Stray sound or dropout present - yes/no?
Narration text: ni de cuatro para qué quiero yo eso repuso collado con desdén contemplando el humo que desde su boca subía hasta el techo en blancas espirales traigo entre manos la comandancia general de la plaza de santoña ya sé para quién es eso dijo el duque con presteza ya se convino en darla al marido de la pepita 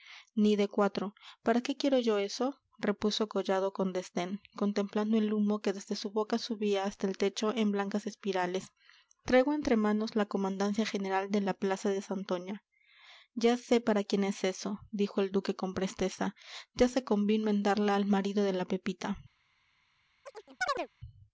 yes